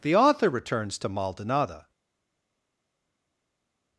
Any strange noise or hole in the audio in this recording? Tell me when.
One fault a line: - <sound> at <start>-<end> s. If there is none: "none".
none